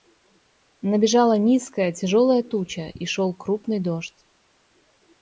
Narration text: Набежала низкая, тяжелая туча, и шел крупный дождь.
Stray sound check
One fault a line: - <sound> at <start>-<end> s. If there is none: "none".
none